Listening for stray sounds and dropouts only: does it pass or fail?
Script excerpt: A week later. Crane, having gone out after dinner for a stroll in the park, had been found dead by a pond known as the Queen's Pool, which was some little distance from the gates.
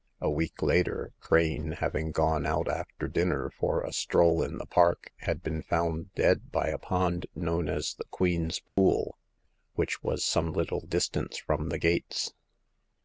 fail